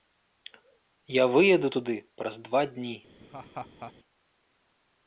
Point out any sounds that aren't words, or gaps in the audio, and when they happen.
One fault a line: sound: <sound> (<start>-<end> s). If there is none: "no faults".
sound: laugh (3.2-3.9 s)